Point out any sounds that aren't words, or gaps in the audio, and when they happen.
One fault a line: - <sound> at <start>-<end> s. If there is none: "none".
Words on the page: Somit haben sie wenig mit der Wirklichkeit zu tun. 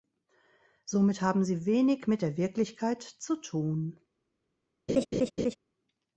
- laugh at 4.9-5.6 s